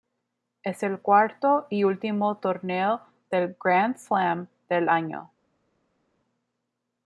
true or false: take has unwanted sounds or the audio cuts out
false